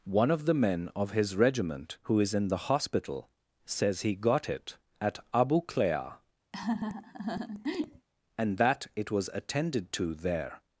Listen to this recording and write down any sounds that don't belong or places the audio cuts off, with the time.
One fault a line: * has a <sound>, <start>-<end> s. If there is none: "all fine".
* has a laugh, 6.5-8.1 s